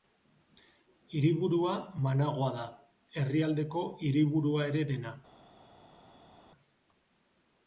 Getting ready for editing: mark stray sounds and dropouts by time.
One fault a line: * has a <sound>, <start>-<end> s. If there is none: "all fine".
all fine